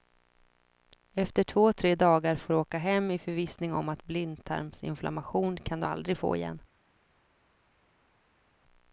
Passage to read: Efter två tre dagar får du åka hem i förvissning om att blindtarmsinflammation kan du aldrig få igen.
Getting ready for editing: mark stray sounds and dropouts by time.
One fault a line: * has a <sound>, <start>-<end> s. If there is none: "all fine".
all fine